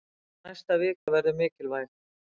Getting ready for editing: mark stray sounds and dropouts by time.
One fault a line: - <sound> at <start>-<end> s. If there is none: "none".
- dropout at 1.0-1.1 s